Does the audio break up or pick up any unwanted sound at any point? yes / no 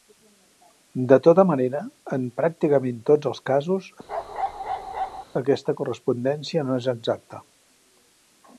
yes